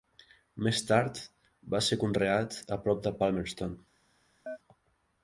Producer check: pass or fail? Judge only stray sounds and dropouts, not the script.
fail